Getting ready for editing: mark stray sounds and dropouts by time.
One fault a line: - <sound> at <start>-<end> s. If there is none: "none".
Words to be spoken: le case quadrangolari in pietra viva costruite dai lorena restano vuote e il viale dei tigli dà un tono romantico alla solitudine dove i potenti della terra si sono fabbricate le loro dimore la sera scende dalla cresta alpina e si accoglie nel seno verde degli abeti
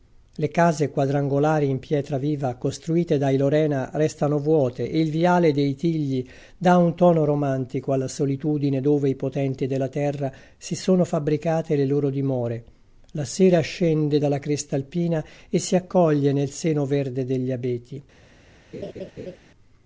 - laugh at 18.7-19.4 s